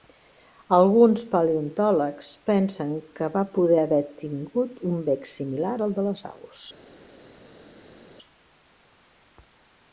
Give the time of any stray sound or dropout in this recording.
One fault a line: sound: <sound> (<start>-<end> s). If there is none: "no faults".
no faults